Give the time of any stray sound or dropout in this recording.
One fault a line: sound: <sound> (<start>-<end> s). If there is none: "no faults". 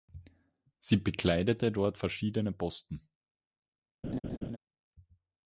sound: laugh (4.0-4.6 s)